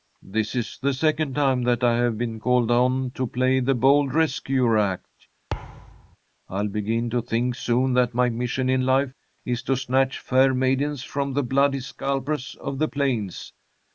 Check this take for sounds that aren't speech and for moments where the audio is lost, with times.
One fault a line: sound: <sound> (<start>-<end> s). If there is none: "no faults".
sound: thud (5.5-6.2 s)